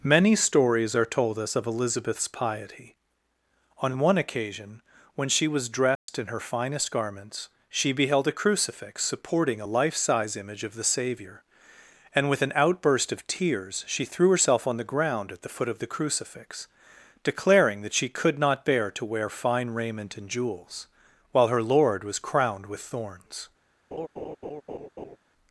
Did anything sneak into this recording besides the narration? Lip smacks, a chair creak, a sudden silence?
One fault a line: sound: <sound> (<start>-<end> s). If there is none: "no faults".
sound: dropout (6.0-6.1 s)
sound: laugh (23.9-25.2 s)